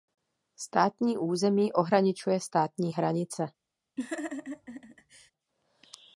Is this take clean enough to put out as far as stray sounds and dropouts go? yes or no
no